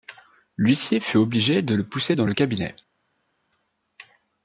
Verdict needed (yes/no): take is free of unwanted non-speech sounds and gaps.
yes